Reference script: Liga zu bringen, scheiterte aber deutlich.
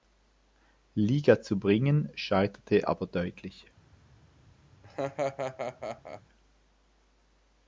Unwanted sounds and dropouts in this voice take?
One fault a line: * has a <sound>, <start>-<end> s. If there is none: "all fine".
* has a laugh, 4.8-6.2 s